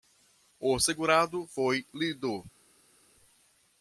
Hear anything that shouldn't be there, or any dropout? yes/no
no